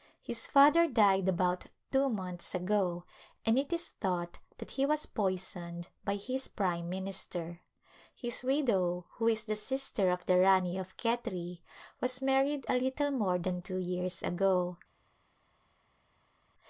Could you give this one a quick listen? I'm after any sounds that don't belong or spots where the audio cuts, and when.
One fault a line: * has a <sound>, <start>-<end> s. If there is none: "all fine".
all fine